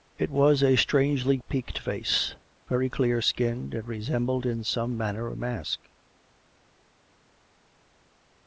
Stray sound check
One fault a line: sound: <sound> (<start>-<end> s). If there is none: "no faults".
no faults